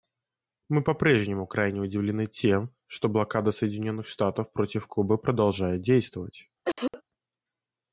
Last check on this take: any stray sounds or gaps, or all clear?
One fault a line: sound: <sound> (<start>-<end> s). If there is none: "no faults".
sound: cough (6.7-7.0 s)